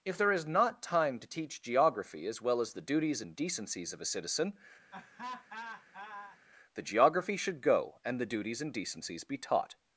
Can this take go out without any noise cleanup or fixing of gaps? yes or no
no